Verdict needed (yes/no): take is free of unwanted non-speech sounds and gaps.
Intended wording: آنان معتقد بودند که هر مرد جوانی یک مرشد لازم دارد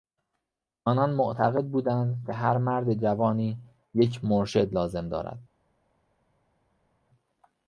yes